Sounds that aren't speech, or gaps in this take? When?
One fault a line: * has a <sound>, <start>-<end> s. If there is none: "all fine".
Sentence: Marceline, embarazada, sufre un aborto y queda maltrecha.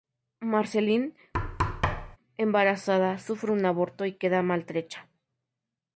* has a thud, 1.3-2.2 s